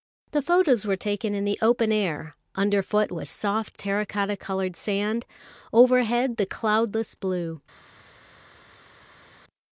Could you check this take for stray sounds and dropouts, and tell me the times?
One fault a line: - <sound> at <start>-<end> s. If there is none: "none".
none